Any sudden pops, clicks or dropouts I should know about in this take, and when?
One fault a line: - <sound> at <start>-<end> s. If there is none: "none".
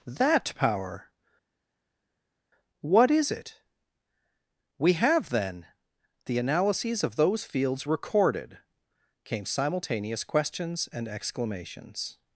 none